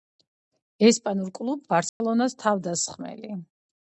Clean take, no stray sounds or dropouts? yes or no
no